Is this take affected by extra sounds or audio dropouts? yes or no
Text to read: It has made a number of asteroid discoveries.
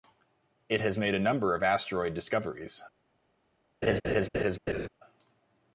yes